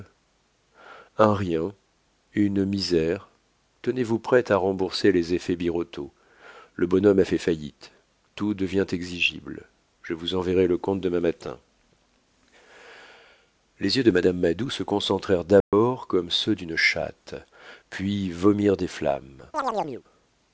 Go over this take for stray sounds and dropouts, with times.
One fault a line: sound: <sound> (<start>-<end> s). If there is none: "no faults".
sound: dropout (15.6-15.7 s)
sound: chirp (19.5-20.0 s)